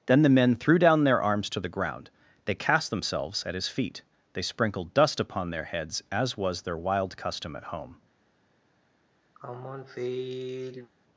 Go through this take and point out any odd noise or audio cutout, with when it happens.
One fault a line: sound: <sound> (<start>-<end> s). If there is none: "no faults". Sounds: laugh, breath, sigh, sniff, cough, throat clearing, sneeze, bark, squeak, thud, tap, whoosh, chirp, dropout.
sound: sigh (9.4-10.9 s)